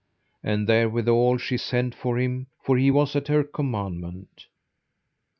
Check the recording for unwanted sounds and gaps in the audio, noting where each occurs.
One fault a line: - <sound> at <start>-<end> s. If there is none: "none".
none